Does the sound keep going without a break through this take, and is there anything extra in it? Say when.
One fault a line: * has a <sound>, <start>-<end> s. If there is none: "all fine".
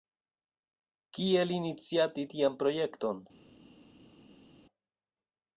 all fine